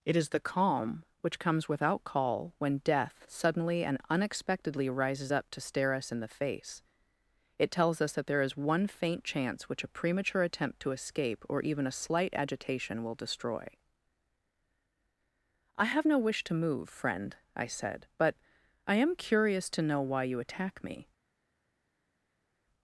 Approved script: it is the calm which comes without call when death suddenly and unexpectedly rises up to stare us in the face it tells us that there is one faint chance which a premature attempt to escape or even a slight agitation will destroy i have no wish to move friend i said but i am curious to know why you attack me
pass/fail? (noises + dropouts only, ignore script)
pass